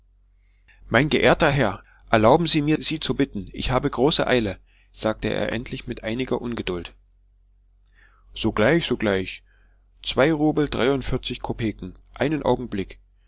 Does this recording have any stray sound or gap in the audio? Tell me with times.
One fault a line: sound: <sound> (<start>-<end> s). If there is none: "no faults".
no faults